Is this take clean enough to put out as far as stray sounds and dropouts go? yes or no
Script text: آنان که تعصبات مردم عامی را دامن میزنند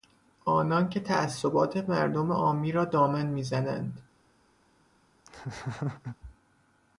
no